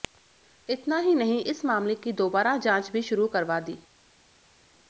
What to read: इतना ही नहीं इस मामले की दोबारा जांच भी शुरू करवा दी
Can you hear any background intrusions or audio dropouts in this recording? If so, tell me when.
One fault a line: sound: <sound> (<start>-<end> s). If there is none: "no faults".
no faults